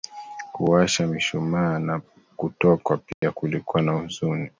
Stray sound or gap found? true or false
true